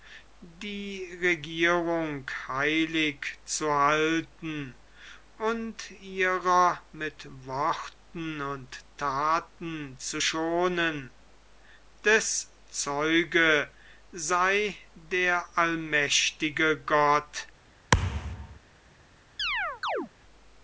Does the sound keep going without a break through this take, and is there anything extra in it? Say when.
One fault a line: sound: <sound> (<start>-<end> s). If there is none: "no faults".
sound: thud (17.9-18.6 s)
sound: chirp (19.4-20.1 s)